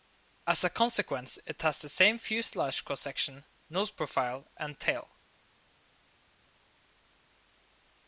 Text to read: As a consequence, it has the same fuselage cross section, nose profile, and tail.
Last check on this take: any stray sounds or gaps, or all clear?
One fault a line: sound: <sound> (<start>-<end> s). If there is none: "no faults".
no faults